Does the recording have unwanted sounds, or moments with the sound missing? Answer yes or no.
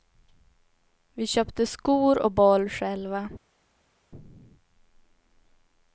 no